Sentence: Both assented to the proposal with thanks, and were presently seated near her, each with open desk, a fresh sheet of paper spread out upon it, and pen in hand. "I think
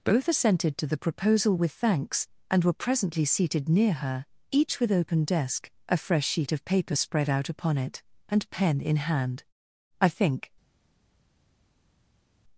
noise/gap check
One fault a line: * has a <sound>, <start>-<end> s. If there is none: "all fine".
all fine